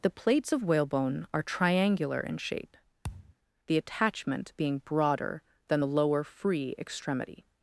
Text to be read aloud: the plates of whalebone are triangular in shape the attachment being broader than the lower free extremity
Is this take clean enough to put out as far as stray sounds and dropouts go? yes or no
no